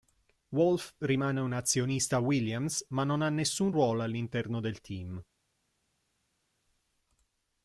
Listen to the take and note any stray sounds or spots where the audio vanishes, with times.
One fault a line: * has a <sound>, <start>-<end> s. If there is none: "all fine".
all fine